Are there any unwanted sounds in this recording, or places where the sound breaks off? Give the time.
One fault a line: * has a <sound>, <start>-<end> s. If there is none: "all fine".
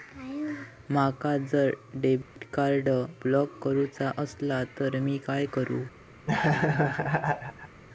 * has a dropout, 2.2-2.4 s
* has a laugh, 6.3-7.8 s